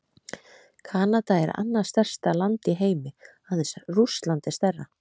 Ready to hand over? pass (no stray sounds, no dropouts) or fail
pass